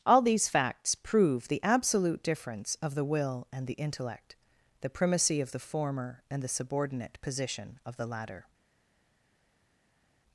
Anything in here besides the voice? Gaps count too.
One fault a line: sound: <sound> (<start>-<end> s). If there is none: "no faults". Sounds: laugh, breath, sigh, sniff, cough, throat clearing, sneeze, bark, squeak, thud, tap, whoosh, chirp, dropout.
no faults